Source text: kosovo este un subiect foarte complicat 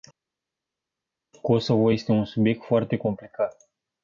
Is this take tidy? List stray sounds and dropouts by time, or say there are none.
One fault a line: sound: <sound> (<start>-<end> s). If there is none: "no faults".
no faults